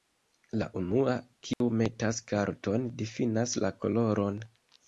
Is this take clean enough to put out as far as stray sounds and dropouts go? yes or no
no